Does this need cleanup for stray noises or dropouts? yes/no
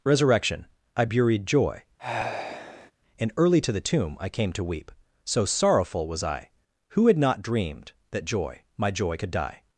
yes